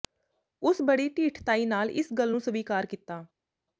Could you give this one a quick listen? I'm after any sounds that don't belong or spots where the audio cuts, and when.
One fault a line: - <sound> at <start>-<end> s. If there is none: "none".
none